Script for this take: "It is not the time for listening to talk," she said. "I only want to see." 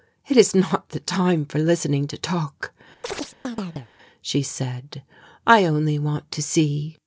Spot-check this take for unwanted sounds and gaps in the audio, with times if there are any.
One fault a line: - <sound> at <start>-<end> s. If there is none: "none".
- chirp at 3.0-3.9 s